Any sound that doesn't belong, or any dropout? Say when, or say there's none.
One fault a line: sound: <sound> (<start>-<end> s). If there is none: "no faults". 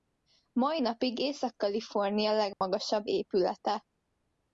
sound: dropout (2.5-2.6 s)